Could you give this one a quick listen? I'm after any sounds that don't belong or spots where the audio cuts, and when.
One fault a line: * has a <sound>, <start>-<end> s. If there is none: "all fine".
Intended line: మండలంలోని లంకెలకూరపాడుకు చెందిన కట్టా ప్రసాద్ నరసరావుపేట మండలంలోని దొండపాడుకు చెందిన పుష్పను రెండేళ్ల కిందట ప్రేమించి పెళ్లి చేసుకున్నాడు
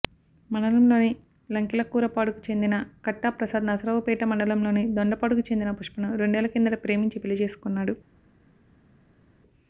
all fine